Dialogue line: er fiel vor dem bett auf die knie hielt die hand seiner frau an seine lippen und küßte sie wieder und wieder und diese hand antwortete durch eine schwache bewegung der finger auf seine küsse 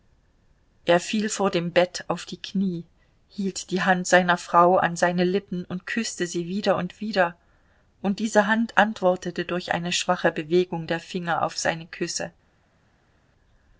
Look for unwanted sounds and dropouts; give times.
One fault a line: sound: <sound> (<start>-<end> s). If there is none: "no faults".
no faults